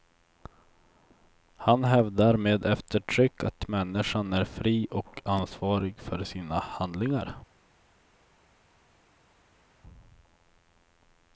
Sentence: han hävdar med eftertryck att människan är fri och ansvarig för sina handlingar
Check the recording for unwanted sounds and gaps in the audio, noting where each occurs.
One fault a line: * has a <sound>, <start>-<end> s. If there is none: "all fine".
all fine